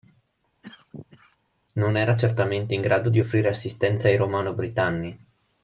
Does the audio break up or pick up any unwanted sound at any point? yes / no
yes